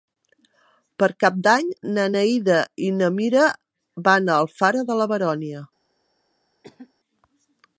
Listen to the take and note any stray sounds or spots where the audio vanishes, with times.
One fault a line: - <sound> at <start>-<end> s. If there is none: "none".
- cough at 6.6-6.9 s